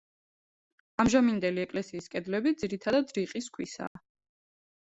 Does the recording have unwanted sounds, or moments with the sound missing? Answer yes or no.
yes